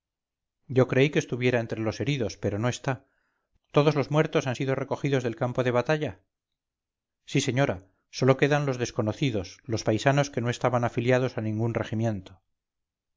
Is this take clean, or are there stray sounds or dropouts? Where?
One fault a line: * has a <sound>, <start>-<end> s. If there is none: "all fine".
all fine